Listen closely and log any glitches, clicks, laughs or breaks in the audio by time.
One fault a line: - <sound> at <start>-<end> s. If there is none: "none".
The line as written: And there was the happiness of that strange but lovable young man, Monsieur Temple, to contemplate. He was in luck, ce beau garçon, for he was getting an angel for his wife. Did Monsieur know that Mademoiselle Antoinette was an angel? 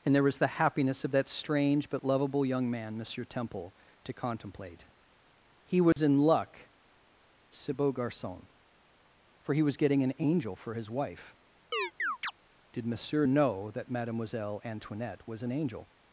- dropout at 5.9-6.0 s
- chirp at 11.7-12.3 s